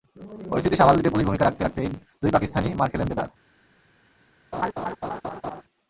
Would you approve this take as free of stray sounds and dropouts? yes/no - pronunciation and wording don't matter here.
no